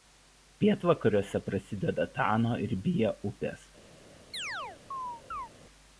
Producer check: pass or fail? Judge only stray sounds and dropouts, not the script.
fail